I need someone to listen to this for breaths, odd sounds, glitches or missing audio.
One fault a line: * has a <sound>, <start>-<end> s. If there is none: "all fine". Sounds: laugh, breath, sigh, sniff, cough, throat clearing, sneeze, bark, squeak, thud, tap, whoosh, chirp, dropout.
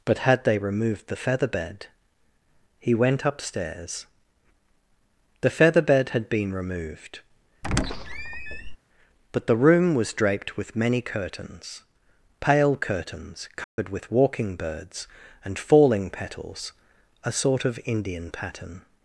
* has a squeak, 7.6-8.8 s
* has a dropout, 13.6-13.8 s